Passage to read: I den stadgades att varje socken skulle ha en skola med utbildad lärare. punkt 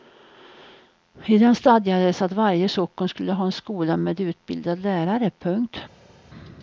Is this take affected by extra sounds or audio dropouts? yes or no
no